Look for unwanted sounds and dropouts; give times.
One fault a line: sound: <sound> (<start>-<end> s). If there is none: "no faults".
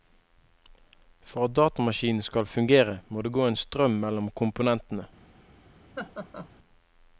sound: laugh (6.0-6.5 s)